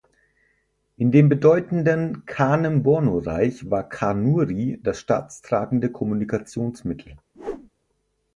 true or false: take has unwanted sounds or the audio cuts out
true